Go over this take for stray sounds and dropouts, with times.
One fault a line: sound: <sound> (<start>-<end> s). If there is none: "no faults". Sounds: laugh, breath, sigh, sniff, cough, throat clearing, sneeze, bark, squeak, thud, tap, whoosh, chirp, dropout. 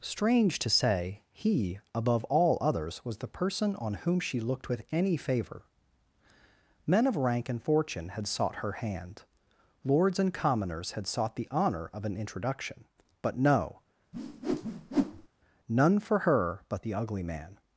sound: whoosh (14.1-15.3 s)